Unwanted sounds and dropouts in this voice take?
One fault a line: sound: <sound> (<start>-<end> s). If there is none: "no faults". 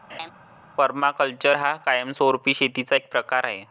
sound: laugh (0.1-0.3 s)